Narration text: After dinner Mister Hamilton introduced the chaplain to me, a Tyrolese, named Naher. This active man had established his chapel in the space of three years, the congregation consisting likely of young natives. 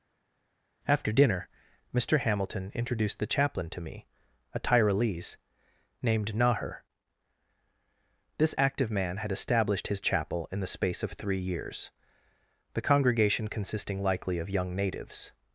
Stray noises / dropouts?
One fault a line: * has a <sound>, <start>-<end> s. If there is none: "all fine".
all fine